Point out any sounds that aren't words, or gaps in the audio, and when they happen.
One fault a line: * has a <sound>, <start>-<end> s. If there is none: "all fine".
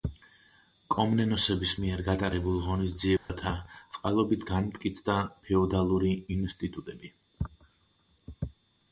* has a dropout, 3.2-3.3 s